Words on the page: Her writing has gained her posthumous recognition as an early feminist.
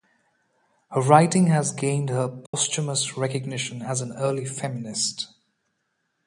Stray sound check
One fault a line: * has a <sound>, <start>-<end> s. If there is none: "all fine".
* has a dropout, 2.5-2.5 s